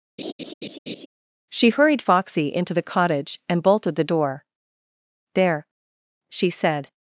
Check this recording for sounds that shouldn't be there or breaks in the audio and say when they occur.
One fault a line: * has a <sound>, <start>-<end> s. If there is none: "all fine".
* has a laugh, 0.2-1.1 s